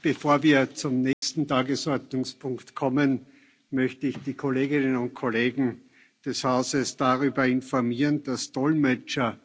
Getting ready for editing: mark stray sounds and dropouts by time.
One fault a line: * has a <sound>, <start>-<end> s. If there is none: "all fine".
* has a dropout, 1.1-1.2 s